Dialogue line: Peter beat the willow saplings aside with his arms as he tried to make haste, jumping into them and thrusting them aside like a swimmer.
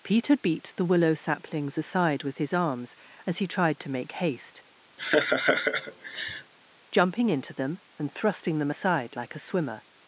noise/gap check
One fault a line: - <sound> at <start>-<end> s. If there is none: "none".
- laugh at 5.0-6.5 s